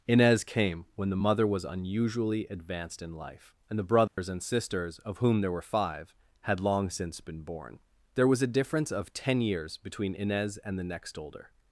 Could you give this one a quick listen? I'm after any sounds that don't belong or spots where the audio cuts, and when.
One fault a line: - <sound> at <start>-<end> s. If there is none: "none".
- dropout at 4.1-4.2 s